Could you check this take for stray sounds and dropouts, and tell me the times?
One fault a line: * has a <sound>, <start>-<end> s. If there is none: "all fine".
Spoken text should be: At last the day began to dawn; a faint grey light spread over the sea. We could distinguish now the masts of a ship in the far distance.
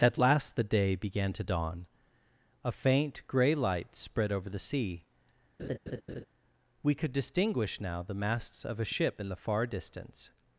* has a laugh, 5.6-6.3 s